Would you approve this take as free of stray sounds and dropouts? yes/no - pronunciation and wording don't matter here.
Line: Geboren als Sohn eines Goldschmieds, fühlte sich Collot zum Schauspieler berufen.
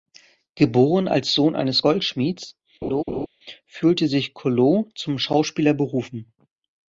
no